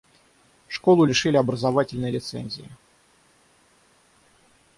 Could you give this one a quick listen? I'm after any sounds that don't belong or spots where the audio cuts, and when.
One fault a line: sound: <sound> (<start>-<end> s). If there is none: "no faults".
no faults